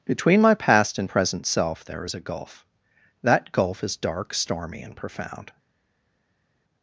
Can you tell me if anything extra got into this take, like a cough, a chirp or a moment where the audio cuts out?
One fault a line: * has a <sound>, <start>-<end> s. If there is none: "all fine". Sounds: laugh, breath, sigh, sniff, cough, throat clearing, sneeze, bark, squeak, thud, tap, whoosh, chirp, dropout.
all fine